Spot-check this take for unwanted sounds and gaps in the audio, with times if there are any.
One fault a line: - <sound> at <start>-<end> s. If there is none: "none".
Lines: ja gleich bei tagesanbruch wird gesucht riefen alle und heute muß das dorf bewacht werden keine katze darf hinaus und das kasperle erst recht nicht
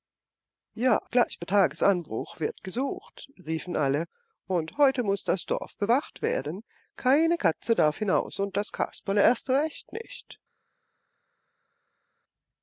none